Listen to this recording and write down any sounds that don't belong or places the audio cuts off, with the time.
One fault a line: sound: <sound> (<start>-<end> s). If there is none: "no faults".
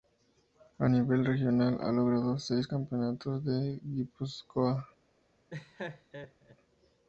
sound: laugh (5.5-6.6 s)